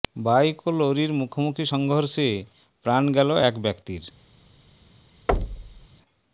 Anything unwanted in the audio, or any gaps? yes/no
yes